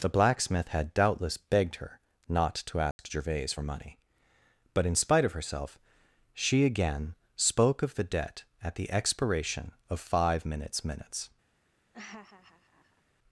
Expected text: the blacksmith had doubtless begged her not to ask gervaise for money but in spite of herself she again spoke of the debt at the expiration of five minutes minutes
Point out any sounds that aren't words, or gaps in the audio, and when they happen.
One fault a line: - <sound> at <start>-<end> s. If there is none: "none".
- dropout at 2.9-3.0 s
- laugh at 11.9-13.0 s